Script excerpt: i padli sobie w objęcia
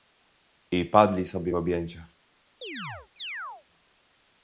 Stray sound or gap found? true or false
true